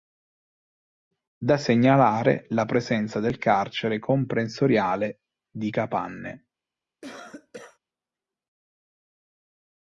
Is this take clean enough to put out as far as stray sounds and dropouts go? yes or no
no